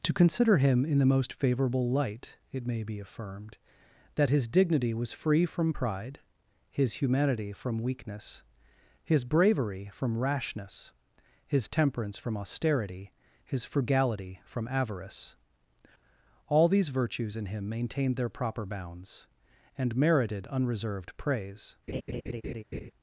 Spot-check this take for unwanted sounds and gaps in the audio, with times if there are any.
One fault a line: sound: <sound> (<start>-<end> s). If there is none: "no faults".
sound: laugh (21.9-22.9 s)